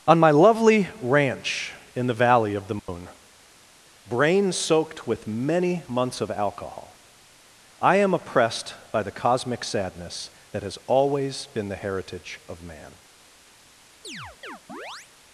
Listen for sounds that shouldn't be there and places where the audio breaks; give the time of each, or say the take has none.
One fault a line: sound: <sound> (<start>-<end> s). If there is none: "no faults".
sound: dropout (2.8-2.9 s)
sound: chirp (14.0-15.1 s)